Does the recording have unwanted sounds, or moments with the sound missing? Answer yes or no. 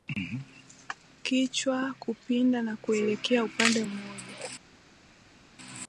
no